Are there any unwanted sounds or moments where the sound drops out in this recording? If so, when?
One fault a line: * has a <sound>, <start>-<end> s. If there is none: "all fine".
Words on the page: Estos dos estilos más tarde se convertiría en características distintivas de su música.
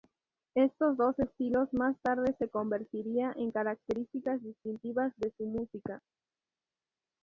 all fine